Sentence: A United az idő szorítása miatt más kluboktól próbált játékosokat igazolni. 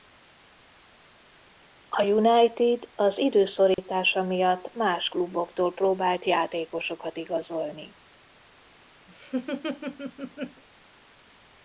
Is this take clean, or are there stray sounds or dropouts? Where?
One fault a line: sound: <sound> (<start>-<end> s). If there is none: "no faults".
sound: dropout (3.7-3.8 s)
sound: laugh (9.1-10.6 s)